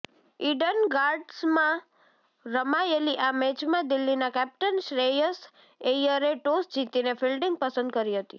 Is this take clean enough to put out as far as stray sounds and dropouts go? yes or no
yes